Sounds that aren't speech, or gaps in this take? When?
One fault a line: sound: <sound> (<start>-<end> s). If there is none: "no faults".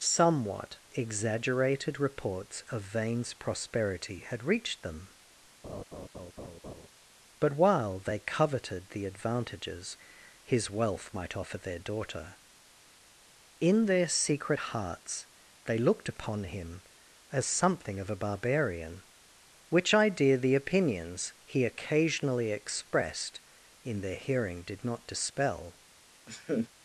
sound: laugh (5.6-6.9 s)
sound: laugh (26.3-26.7 s)